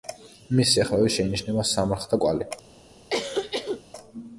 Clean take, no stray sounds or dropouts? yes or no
no